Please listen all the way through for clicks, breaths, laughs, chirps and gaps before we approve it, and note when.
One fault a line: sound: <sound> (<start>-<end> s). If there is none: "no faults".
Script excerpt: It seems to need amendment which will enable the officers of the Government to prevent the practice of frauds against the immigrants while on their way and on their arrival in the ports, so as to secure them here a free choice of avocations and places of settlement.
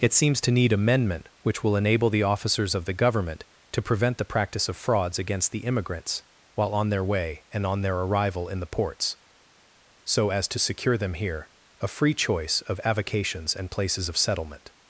no faults